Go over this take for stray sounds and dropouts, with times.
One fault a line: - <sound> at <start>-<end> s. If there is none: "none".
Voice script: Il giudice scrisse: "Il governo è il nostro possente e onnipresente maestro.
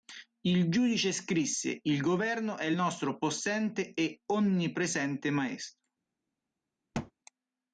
- thud at 6.9-7.1 s